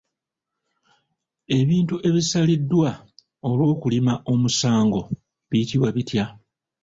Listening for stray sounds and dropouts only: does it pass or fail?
pass